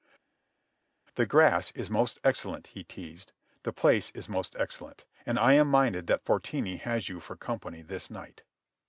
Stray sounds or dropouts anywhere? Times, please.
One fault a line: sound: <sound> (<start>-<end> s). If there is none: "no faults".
no faults